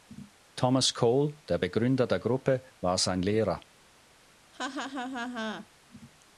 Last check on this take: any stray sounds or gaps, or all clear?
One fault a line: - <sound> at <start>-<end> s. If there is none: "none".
- laugh at 4.5-5.7 s